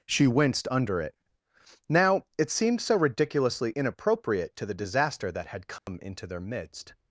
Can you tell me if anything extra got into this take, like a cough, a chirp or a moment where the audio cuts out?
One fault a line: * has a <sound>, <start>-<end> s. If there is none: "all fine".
* has a dropout, 5.8-5.9 s